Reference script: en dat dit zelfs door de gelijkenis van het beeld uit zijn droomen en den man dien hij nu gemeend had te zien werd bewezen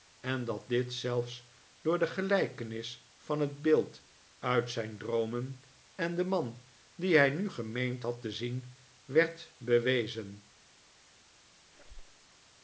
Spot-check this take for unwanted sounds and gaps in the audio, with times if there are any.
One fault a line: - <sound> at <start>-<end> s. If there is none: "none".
- squeak at 11.7-12.3 s